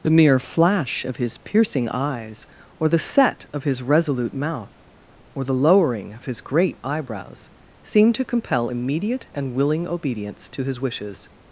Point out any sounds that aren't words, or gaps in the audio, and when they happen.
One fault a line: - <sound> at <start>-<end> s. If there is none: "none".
none